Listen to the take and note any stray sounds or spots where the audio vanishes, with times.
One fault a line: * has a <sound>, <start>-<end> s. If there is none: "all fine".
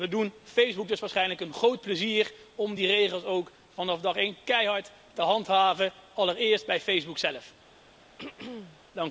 * has a throat clearing, 8.2-8.8 s